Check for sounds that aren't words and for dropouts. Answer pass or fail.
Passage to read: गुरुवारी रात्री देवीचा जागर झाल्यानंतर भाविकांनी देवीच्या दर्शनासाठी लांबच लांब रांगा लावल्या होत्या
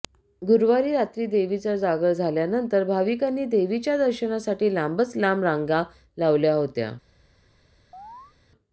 fail